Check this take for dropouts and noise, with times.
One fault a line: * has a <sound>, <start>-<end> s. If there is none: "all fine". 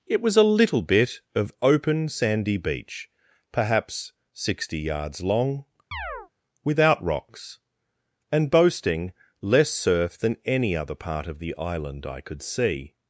* has a chirp, 5.9-6.3 s